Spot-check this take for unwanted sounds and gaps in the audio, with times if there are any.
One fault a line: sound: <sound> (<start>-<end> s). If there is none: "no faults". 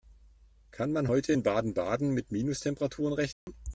sound: dropout (3.3-3.5 s)